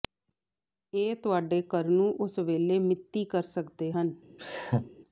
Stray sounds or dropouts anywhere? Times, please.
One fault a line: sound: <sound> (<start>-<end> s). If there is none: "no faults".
sound: laugh (4.4-4.9 s)